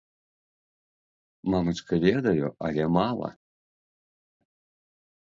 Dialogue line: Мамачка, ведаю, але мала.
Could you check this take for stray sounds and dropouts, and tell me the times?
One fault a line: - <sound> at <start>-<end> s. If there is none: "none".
none